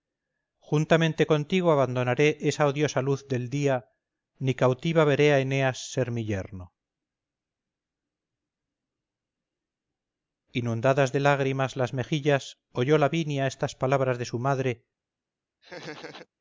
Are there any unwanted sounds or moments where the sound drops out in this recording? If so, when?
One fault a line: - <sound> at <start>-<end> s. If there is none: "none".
- laugh at 15.6-16.3 s